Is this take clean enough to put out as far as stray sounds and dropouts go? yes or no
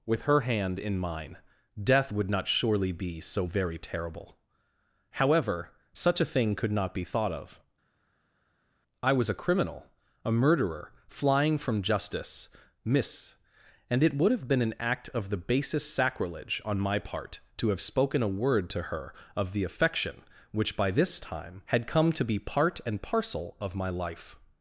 yes